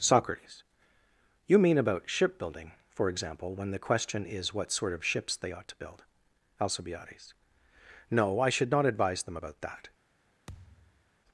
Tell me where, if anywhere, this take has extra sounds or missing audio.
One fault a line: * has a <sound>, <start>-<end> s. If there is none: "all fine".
* has a thud, 10.5-11.1 s